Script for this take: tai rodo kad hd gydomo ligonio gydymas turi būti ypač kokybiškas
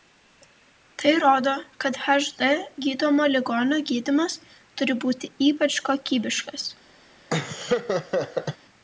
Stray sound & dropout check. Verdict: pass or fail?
fail